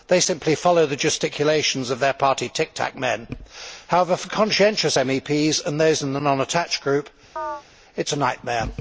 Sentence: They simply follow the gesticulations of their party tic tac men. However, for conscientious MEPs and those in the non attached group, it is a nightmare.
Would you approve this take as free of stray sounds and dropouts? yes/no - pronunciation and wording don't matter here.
no